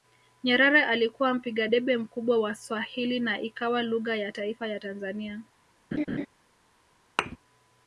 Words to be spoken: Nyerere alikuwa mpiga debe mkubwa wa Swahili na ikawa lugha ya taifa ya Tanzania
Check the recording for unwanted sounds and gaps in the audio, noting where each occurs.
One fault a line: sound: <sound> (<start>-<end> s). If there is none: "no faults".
sound: laugh (5.9-6.3 s)
sound: thud (7.2-7.4 s)